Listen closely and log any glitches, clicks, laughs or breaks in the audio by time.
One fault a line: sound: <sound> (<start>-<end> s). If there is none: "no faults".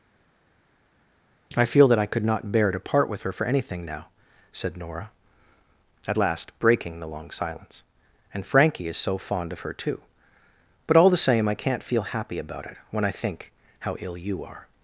no faults